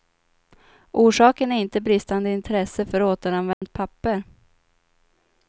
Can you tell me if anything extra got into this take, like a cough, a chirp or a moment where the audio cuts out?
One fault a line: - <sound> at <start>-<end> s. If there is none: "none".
- dropout at 3.5-3.6 s